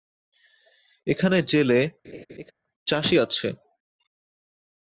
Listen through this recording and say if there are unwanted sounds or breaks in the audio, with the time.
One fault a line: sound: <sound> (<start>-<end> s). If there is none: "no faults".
sound: laugh (2.0-2.5 s)